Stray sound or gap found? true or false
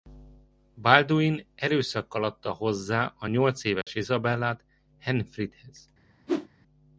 true